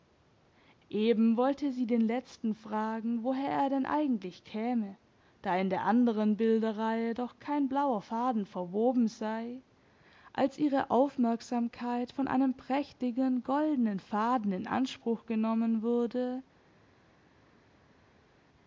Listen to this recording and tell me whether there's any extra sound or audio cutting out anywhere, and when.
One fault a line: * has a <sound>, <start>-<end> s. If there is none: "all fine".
all fine